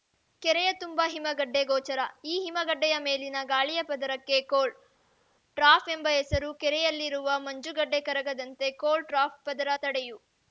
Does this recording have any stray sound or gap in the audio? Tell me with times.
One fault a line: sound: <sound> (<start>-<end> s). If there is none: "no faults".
no faults